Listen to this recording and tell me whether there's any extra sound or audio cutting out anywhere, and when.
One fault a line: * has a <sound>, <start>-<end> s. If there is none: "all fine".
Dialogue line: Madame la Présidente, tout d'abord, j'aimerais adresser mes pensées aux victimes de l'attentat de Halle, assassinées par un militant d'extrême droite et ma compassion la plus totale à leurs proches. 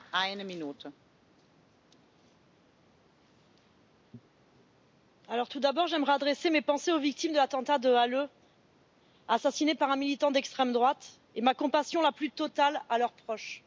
all fine